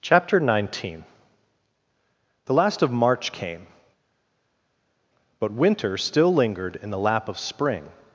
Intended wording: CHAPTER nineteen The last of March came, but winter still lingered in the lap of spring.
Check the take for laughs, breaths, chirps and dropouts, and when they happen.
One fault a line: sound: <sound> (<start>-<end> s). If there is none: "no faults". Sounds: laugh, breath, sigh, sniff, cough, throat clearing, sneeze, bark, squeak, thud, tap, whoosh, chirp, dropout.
no faults